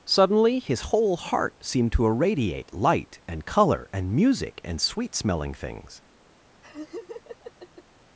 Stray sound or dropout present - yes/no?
yes